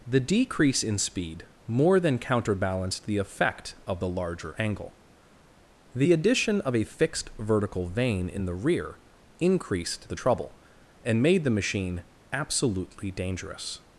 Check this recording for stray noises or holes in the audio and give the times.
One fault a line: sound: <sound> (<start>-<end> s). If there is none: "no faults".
no faults